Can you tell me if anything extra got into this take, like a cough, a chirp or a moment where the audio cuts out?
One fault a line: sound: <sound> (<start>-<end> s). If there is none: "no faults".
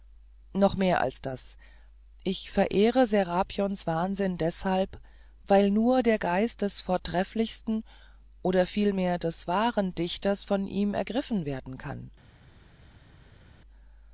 no faults